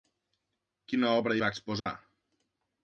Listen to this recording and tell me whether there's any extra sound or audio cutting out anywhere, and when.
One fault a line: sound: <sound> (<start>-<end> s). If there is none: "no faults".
sound: dropout (1.8-1.9 s)